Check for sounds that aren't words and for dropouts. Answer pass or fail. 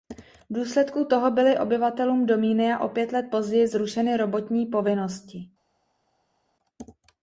pass